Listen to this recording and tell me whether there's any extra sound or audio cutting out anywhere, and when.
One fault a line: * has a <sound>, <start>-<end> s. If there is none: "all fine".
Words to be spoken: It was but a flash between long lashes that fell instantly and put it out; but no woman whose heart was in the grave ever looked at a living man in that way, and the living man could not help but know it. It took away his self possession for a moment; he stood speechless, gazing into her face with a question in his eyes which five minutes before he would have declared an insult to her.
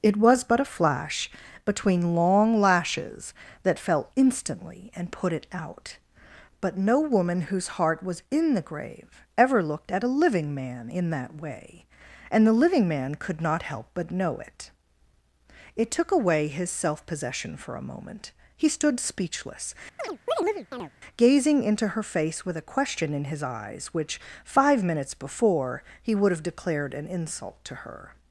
* has a chirp, 20.0-20.9 s